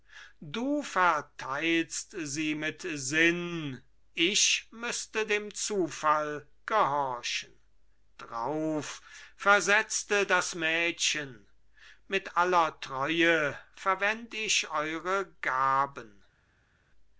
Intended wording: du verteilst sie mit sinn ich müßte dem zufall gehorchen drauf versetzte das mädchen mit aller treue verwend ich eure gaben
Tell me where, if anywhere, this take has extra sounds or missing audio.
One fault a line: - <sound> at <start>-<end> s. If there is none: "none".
none